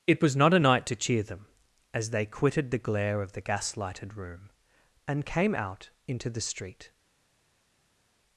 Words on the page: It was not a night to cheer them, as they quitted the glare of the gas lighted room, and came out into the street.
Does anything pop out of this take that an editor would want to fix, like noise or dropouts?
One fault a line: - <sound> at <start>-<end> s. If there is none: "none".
none